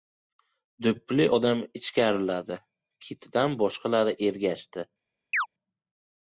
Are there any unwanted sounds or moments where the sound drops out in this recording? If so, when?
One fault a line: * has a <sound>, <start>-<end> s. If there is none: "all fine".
* has a chirp, 5.3-5.5 s